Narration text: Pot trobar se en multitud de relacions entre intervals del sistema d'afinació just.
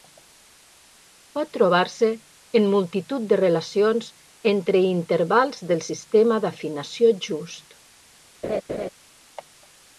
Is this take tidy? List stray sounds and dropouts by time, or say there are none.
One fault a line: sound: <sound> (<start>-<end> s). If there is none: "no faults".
sound: laugh (8.4-8.9 s)